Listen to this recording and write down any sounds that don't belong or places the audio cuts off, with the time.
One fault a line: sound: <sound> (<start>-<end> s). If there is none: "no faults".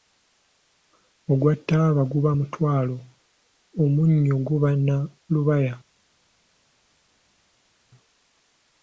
no faults